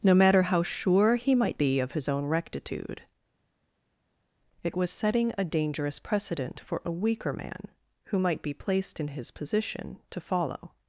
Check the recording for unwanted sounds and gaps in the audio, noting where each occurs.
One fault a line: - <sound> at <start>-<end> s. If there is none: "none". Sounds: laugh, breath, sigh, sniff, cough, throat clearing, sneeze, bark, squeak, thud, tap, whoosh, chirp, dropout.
none